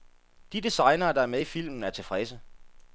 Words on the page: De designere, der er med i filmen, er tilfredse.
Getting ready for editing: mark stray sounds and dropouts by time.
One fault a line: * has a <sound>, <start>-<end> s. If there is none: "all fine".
all fine